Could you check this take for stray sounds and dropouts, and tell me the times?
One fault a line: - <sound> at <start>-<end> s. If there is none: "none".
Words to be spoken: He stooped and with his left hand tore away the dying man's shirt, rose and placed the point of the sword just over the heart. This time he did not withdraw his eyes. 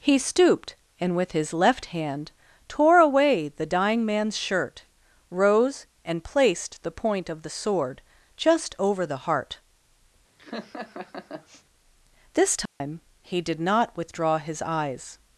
- laugh at 10.4-11.6 s
- dropout at 12.7-12.8 s